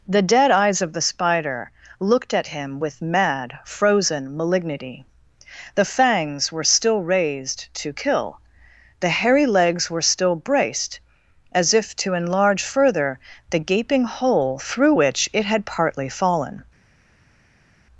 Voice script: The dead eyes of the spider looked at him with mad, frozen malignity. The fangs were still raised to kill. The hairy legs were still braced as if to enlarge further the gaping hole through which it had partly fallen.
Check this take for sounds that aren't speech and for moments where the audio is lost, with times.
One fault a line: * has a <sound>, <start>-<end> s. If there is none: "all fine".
all fine